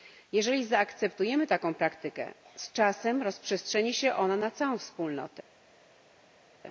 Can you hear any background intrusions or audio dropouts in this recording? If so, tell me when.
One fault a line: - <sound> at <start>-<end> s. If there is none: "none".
none